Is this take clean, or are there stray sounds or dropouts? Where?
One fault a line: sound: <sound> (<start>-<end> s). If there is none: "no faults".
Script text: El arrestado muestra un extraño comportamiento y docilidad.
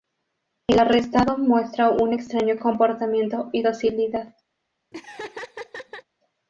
sound: laugh (4.9-6.0 s)